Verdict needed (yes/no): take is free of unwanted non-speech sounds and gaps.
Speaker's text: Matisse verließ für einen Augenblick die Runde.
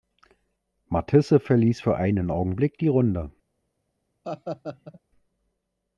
no